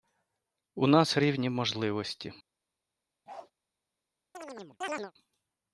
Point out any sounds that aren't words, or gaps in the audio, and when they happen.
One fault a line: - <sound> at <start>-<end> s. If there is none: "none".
- bark at 3.3-3.5 s
- chirp at 4.3-5.1 s